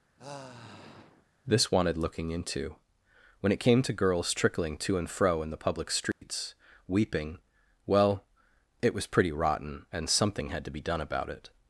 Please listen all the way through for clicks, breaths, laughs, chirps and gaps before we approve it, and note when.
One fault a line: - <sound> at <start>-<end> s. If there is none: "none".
- sigh at 0.2-1.3 s
- dropout at 6.1-6.2 s